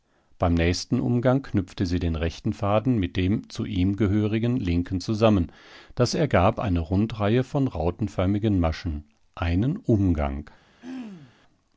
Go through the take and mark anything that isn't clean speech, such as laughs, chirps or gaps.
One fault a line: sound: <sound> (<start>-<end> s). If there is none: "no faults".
sound: throat clearing (10.8-11.4 s)